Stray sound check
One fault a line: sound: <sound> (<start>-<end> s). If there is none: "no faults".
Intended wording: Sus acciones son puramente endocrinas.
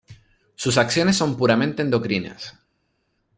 no faults